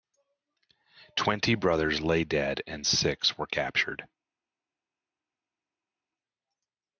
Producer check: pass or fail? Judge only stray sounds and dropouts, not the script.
pass